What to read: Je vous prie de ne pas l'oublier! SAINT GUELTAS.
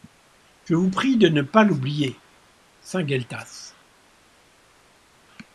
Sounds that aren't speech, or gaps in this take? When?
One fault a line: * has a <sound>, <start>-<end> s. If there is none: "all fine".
all fine